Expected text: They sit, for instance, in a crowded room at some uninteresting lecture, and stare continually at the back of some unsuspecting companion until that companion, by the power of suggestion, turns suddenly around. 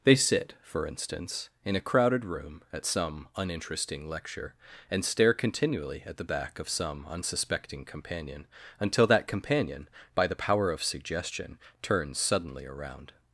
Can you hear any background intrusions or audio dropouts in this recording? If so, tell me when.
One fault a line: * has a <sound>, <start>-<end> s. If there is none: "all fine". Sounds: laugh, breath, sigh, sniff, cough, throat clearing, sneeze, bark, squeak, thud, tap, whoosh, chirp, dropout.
all fine